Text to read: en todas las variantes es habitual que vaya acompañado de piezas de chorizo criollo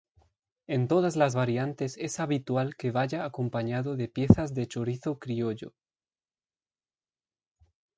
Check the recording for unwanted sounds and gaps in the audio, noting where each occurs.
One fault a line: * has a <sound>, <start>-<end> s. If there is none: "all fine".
all fine